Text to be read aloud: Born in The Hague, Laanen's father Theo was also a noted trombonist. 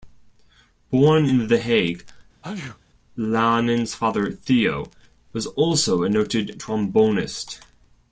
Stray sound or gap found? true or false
true